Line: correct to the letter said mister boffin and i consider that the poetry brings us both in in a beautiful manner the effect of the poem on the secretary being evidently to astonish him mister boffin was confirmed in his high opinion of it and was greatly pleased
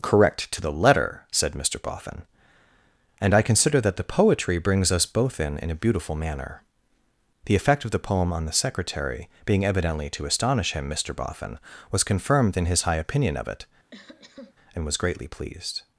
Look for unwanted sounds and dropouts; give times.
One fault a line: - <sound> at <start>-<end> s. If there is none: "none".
- cough at 13.9-14.5 s